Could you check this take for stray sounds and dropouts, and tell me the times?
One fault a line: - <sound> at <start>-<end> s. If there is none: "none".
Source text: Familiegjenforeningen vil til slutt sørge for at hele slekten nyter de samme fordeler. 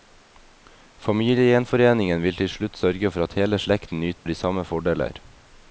- dropout at 4.2-4.3 s